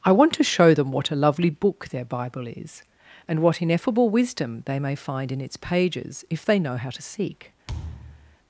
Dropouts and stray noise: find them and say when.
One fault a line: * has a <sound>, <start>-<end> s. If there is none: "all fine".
* has a thud, 7.7-8.4 s